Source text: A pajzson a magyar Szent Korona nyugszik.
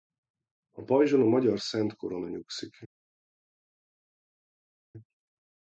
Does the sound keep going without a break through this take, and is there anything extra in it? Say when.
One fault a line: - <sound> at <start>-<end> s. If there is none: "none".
none